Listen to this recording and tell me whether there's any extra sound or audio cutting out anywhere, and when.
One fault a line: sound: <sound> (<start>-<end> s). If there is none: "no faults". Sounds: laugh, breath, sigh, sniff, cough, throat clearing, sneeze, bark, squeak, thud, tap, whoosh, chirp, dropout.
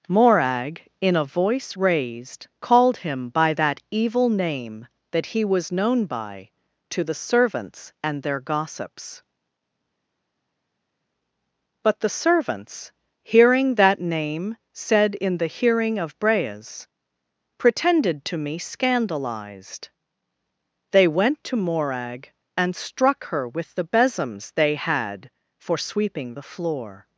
no faults